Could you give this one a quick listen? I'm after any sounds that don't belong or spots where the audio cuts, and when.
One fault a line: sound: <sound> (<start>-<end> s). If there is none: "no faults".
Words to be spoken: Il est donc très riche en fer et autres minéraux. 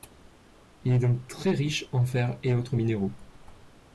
no faults